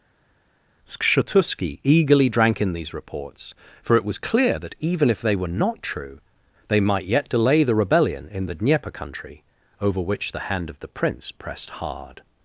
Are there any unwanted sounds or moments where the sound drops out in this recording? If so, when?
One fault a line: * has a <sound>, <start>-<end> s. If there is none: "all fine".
all fine